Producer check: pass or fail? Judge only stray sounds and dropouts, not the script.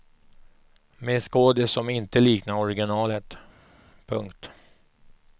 pass